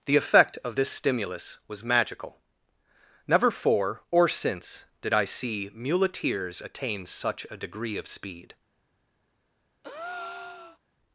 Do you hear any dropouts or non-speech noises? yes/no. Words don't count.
yes